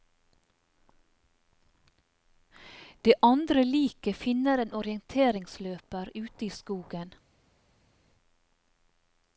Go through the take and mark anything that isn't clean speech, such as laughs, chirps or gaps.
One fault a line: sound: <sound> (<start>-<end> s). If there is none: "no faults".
no faults